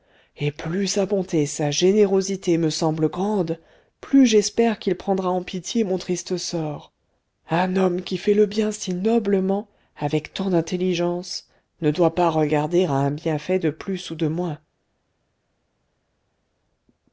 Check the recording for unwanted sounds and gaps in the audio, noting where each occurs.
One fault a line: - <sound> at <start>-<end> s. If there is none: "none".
none